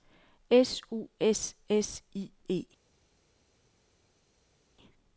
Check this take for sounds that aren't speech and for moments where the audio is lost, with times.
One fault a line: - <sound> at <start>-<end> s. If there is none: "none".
none